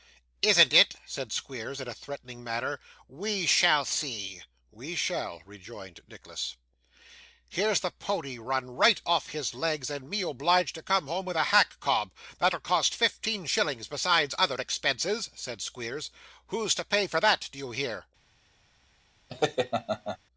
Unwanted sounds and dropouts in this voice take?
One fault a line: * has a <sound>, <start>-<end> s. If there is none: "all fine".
* has a laugh, 19.3-20.2 s